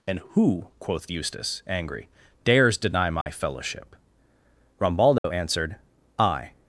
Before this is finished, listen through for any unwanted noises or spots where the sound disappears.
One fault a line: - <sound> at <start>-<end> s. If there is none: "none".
- dropout at 3.2-3.3 s
- dropout at 5.2-5.2 s